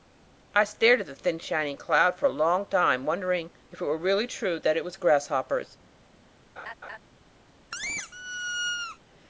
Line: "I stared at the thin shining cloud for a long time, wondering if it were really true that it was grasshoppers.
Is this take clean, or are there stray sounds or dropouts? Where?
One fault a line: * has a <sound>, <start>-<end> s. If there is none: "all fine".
* has a laugh, 6.6-7.0 s
* has a squeak, 7.7-9.0 s